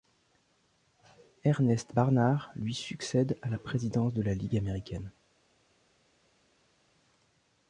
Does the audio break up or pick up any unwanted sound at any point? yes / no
no